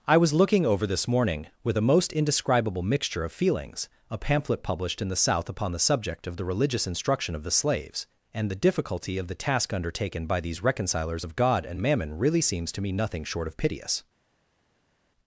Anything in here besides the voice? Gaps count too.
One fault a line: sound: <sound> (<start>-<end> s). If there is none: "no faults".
no faults